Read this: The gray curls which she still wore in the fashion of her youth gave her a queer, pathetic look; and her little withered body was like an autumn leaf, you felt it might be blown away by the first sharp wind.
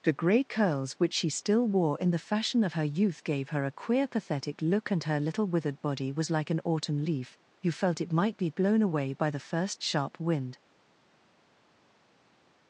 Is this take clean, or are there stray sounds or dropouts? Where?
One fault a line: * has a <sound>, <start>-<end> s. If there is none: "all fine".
all fine